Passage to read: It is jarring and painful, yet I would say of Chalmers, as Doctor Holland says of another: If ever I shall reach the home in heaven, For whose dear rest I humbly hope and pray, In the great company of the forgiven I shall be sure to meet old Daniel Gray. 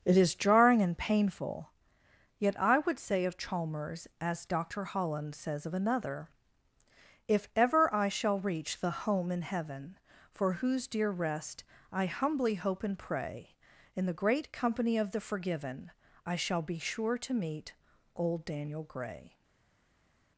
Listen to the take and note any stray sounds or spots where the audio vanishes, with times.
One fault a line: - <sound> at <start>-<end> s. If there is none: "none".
none